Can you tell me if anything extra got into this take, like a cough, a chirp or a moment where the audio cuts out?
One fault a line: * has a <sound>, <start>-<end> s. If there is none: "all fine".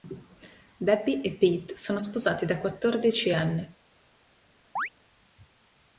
* has a chirp, 4.8-4.9 s